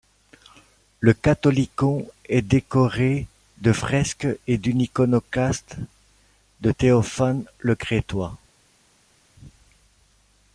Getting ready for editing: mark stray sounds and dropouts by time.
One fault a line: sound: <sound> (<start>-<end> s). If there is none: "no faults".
no faults